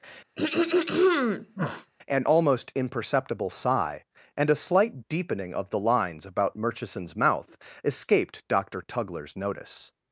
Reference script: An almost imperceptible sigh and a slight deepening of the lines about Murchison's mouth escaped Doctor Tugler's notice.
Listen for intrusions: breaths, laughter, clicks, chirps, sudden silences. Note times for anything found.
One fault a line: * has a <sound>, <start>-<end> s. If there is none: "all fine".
* has a throat clearing, 0.4-1.9 s